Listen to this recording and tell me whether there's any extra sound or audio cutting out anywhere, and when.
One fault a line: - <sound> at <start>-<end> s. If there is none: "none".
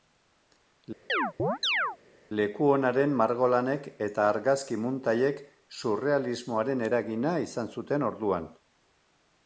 - chirp at 1.1-2.0 s